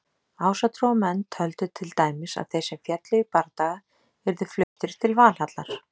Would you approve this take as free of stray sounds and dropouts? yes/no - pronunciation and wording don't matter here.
no